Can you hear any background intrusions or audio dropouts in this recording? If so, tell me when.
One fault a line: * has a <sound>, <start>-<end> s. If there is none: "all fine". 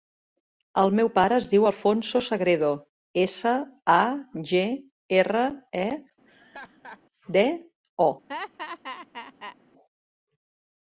* has a laugh, 6.2-7.0 s
* has a laugh, 8.3-9.6 s